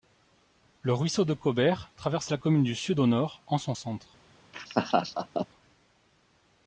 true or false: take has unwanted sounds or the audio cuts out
true